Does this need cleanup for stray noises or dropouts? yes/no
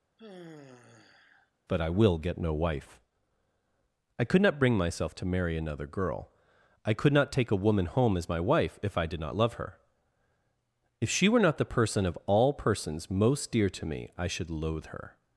yes